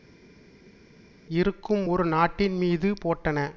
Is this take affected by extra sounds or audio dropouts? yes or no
no